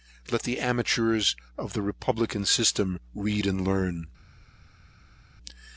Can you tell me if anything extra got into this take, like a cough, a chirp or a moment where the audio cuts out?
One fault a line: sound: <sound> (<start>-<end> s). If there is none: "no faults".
no faults